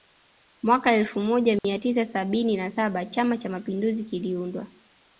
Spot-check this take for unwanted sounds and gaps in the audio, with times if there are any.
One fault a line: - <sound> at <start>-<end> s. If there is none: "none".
- dropout at 1.6-1.6 s